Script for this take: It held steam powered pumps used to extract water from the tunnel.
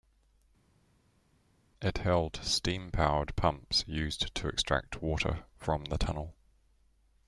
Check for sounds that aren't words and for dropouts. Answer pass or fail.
pass